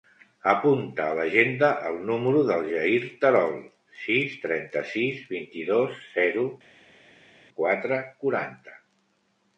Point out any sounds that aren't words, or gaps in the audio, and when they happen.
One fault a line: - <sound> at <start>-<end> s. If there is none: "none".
none